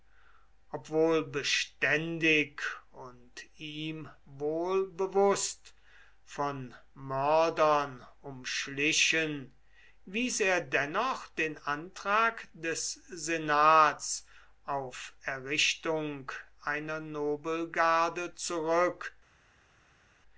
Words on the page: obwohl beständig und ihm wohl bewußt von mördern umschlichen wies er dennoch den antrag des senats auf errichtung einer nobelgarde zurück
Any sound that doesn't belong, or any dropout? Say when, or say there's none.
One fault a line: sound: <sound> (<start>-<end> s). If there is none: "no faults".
no faults